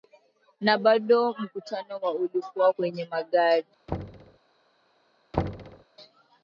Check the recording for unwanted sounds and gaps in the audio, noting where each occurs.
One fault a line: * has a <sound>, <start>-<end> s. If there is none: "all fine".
* has a thud, 3.9-4.4 s
* has a thud, 5.3-5.8 s